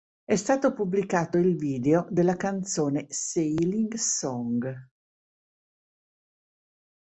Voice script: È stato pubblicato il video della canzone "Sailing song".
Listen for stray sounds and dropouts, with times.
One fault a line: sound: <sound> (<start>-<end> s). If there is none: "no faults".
no faults